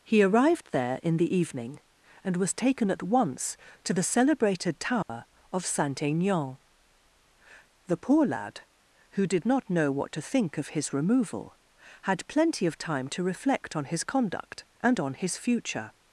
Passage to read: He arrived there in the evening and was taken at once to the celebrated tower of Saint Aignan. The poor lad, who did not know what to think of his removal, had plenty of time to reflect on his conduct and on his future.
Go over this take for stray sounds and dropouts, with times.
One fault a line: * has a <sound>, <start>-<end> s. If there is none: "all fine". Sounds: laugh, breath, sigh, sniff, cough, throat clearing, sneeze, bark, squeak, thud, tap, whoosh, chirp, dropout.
* has a dropout, 5.0-5.1 s